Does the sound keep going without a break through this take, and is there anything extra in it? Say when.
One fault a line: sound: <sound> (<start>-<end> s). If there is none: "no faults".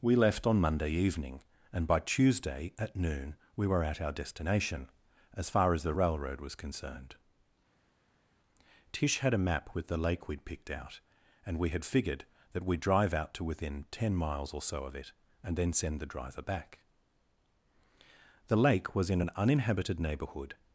no faults